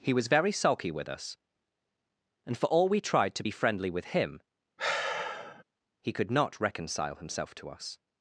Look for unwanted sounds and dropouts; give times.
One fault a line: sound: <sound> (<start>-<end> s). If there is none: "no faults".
sound: sigh (4.8-5.6 s)